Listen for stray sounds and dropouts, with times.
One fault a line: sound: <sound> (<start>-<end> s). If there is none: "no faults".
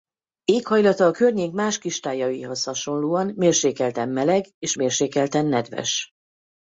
no faults